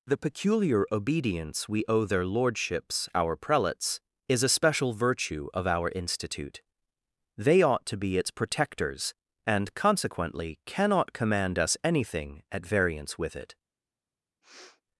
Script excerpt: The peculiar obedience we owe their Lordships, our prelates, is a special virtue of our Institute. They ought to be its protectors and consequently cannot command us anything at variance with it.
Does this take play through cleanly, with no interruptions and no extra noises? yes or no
no